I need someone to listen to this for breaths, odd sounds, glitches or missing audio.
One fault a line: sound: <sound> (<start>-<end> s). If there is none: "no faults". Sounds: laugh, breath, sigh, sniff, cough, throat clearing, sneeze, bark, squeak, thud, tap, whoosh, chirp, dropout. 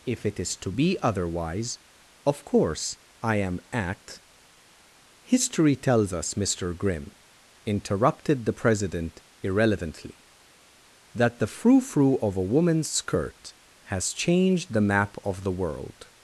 no faults